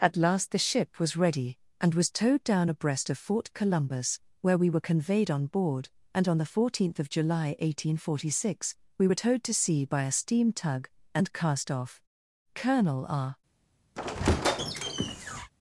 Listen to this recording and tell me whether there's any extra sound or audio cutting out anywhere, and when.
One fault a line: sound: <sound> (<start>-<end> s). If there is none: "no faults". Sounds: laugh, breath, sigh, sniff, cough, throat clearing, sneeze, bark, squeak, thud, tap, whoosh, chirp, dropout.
sound: squeak (14.0-15.5 s)